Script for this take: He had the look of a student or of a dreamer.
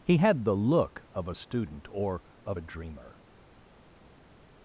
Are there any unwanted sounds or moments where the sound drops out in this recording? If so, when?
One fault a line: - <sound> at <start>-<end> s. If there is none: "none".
none